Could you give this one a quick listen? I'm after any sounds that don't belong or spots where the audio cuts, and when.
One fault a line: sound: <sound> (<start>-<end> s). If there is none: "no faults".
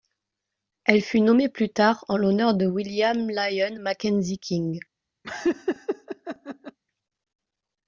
sound: laugh (5.2-6.8 s)